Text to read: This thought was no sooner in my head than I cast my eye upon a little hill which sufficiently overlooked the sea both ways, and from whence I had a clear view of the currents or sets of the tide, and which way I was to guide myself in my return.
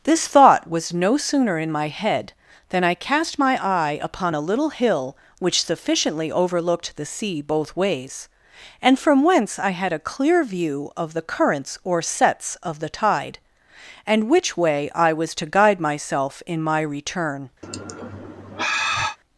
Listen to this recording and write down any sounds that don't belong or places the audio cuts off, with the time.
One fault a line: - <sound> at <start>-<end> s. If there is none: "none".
- sigh at 17.6-19.2 s